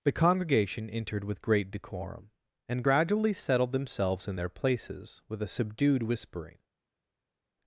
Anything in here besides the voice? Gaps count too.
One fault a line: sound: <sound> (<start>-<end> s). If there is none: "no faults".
no faults